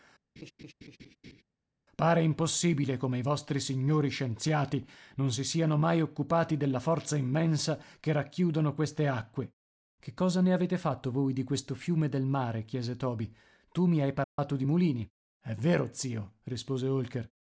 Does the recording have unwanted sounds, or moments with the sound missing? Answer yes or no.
yes